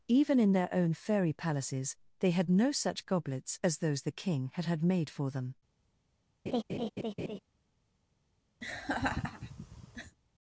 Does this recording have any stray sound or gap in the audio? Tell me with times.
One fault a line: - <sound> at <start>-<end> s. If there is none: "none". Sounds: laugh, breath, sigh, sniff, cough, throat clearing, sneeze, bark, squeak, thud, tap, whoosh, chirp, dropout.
- laugh at 6.5-7.4 s
- laugh at 8.6-10.2 s